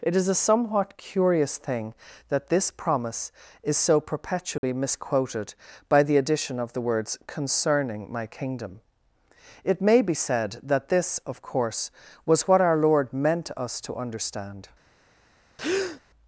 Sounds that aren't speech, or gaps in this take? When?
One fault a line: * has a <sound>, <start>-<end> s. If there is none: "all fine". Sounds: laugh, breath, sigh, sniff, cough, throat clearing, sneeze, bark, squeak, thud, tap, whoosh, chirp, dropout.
* has a dropout, 4.6-4.6 s
* has a breath, 15.6-16.0 s